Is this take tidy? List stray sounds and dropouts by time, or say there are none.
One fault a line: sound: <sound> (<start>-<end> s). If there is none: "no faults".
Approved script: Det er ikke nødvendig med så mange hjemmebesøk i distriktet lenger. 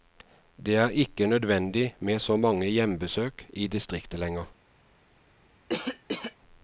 sound: cough (5.7-6.4 s)